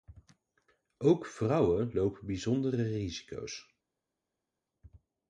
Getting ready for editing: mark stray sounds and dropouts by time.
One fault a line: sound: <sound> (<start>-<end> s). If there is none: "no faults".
no faults